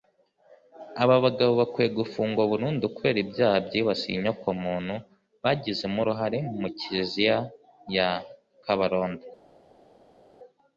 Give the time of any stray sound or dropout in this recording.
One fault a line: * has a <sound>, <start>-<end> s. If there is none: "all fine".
all fine